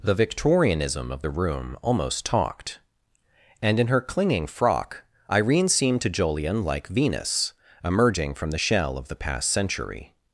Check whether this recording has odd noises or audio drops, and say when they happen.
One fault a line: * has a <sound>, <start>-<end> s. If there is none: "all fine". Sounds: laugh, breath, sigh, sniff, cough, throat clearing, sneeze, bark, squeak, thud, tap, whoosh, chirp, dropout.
all fine